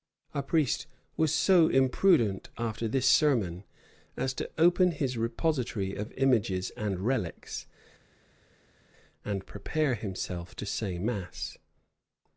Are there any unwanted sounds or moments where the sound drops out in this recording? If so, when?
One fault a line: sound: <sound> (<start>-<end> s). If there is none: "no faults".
no faults